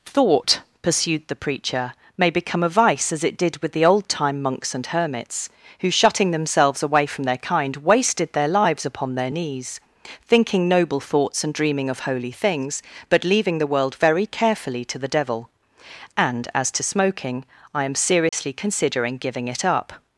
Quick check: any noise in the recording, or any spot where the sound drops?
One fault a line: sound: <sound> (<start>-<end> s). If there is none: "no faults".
sound: dropout (18.3-18.3 s)